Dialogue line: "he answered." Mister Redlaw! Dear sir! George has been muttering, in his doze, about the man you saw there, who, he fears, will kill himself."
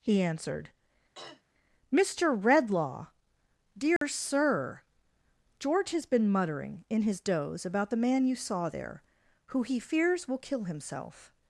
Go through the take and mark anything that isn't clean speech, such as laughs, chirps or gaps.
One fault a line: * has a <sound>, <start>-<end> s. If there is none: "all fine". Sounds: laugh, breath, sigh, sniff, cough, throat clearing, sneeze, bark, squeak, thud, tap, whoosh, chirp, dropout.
* has a throat clearing, 1.1-1.4 s
* has a dropout, 4.0-4.0 s